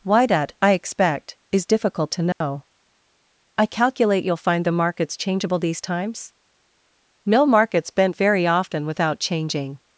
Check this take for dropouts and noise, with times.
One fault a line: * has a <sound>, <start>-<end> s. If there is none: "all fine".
* has a dropout, 2.3-2.4 s